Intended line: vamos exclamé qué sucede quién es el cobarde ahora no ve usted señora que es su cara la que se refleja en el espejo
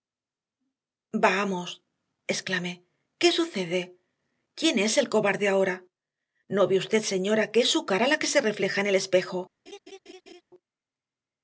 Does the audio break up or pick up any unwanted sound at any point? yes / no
yes